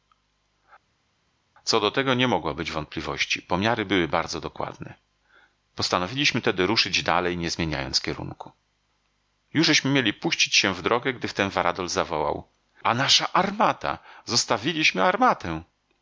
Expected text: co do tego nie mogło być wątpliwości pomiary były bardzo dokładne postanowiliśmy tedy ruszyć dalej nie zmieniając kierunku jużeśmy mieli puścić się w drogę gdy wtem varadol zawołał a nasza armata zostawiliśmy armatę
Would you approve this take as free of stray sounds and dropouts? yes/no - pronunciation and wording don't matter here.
yes